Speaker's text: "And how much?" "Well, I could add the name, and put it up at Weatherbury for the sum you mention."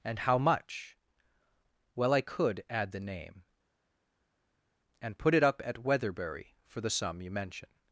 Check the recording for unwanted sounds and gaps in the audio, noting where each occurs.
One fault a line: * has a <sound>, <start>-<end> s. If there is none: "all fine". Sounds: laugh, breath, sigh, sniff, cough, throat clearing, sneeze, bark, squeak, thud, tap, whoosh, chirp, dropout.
all fine